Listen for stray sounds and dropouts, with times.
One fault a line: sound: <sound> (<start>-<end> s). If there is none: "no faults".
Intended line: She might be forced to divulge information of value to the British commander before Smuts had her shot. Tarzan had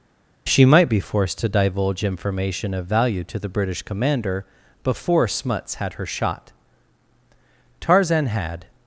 no faults